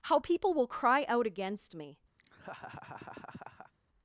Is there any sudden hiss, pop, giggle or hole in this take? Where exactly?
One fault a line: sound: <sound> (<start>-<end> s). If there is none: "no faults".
sound: laugh (2.2-3.7 s)